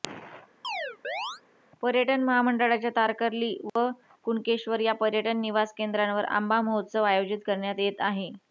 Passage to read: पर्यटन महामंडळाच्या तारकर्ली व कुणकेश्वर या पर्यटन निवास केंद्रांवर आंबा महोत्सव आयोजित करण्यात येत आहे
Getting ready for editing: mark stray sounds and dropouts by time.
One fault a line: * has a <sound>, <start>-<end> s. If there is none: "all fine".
* has a chirp, 0.6-1.4 s
* has a dropout, 3.7-3.8 s